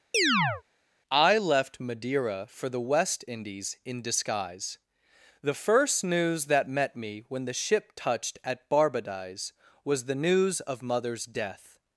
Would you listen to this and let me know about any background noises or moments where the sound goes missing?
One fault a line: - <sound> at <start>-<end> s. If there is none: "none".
- chirp at 0.1-0.6 s